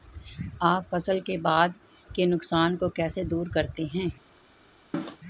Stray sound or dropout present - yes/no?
yes